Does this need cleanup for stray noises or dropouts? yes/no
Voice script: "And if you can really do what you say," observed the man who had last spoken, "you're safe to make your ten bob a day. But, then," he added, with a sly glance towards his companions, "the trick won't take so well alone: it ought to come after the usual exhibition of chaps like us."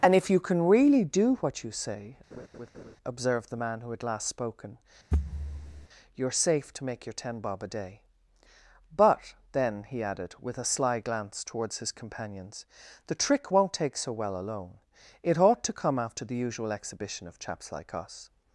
yes